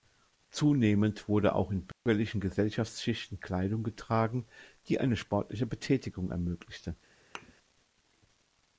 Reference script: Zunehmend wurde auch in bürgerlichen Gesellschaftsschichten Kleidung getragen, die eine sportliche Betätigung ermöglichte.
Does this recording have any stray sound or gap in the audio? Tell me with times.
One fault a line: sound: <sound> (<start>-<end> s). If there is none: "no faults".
sound: dropout (1.9-2.1 s)
sound: thud (7.3-7.5 s)